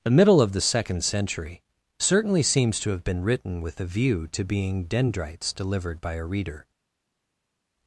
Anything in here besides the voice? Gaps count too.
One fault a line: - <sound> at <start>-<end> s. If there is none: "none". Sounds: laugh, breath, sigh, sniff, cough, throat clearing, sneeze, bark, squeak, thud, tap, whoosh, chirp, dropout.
none